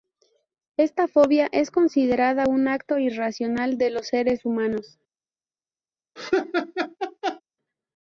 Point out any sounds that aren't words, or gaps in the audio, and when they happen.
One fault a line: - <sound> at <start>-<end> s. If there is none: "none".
- laugh at 6.2-7.4 s